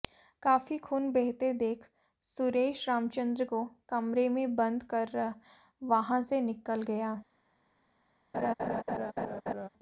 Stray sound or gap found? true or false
true